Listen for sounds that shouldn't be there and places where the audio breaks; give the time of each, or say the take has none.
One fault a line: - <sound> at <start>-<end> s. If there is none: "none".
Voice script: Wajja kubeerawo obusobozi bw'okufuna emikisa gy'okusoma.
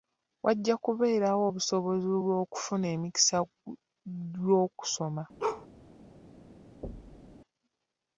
- bark at 5.4-5.7 s
- thud at 6.8-7.4 s